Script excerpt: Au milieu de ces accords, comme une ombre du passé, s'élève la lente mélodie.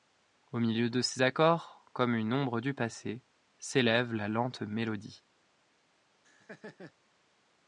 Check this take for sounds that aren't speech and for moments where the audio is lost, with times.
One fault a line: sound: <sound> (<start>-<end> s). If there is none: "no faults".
sound: laugh (6.2-6.9 s)